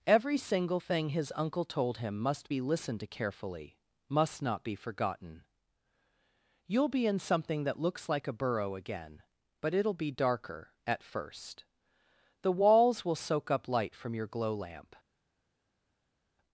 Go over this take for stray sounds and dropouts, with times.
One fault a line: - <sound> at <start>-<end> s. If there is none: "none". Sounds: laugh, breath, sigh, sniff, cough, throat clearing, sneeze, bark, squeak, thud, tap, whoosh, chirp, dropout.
none